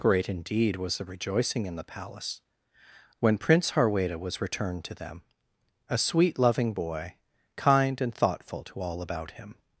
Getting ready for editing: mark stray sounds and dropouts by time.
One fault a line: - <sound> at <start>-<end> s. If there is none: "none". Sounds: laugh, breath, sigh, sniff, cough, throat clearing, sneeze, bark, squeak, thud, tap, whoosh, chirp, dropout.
none